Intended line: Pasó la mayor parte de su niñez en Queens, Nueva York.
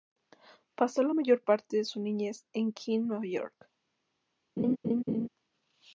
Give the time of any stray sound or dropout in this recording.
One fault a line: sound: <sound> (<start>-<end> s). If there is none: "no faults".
sound: laugh (4.6-5.3 s)